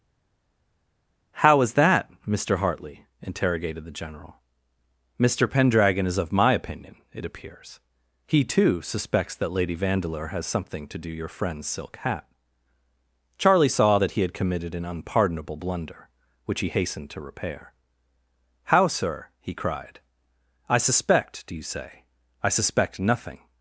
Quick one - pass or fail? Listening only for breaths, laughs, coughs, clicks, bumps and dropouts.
pass